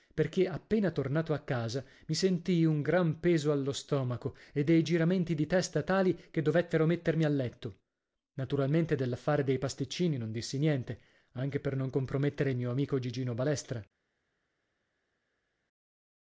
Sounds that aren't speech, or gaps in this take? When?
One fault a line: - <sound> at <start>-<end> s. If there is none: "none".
none